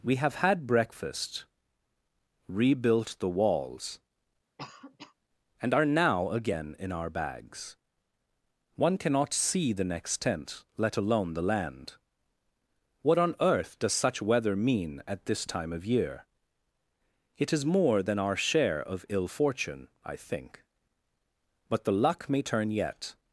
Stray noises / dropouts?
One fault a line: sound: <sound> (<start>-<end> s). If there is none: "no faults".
sound: cough (4.6-5.1 s)